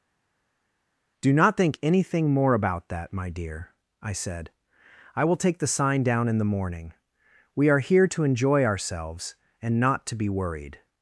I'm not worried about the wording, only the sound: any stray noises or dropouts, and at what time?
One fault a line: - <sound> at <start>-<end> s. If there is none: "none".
none